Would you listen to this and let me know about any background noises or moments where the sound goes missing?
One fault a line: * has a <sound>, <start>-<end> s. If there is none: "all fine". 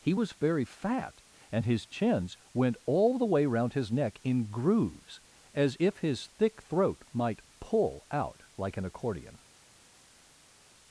all fine